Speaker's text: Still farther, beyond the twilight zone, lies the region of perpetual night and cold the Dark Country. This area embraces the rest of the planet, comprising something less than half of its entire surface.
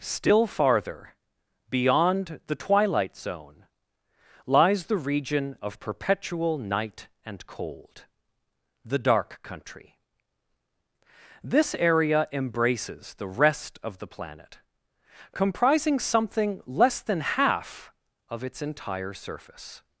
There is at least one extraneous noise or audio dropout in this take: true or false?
false